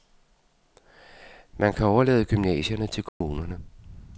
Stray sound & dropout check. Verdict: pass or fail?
fail